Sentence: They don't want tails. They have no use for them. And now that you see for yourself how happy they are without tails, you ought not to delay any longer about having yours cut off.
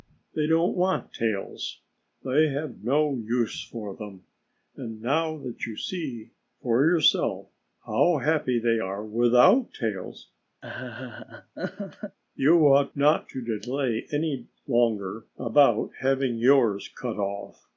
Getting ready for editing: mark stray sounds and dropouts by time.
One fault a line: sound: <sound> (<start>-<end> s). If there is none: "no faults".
sound: laugh (10.6-12.2 s)